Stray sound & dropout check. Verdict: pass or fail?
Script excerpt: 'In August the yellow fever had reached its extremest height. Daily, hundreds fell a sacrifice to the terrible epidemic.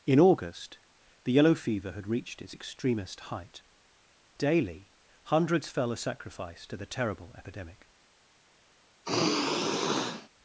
fail